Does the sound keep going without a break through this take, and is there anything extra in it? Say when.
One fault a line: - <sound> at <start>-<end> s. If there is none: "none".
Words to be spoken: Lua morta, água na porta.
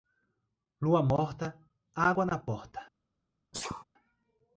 - sneeze at 3.5-3.8 s